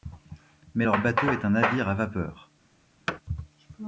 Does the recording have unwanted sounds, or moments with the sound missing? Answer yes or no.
yes